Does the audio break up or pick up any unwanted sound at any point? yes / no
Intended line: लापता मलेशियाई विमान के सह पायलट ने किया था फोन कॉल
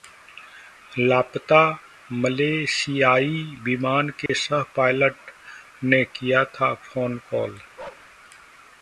yes